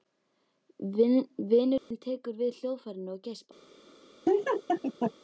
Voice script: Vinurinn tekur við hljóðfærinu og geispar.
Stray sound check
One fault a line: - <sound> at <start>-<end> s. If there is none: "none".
- dropout at 1.8-1.9 s
- laugh at 4.3-5.1 s